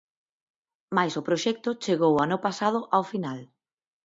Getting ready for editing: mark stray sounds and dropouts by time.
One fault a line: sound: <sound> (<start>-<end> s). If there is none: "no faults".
no faults